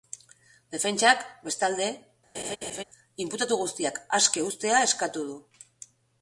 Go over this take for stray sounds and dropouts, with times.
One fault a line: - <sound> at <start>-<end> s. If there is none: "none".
- laugh at 2.3-2.8 s